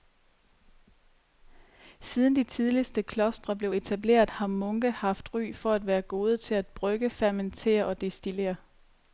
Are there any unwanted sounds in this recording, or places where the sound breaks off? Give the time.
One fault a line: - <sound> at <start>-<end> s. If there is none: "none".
none